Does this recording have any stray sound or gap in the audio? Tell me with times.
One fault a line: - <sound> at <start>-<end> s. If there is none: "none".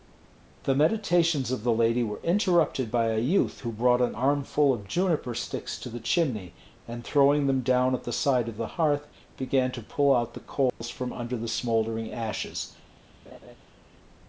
- dropout at 10.7-10.8 s
- laugh at 13.3-13.6 s